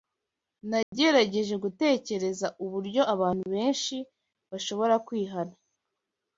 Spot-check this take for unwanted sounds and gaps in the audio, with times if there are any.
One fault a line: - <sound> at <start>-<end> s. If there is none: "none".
- dropout at 0.8-0.9 s